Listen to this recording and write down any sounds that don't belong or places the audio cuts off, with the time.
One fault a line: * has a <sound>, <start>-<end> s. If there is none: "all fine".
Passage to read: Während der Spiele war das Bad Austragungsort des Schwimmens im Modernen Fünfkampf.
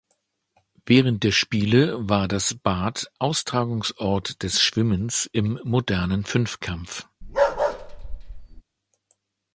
* has a bark, 7.2-8.6 s